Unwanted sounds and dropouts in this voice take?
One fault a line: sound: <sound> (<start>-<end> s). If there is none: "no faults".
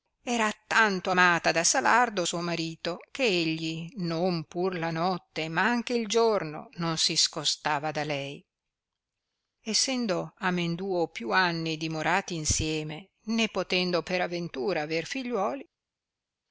no faults